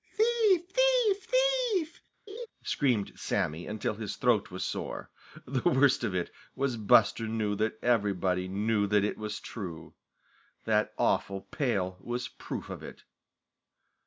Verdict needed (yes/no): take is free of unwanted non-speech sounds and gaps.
no